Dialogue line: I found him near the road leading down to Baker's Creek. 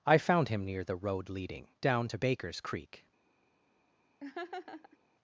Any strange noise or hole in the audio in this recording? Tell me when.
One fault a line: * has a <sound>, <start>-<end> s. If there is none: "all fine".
* has a laugh, 4.2-5.0 s